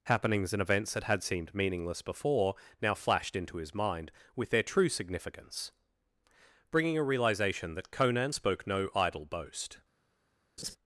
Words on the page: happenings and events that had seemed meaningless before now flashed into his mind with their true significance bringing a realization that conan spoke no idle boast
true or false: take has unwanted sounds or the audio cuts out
true